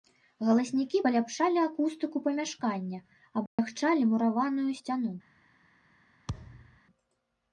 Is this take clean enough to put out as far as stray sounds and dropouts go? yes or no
no